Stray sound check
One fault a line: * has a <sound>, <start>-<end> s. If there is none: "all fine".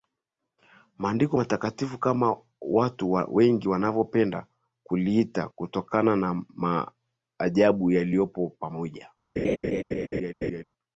* has a laugh, 9.4-10.6 s